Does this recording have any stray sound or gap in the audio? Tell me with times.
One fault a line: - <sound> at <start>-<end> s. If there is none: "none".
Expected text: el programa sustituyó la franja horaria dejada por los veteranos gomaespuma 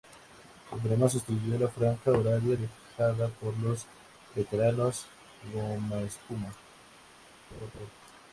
- laugh at 7.5-7.9 s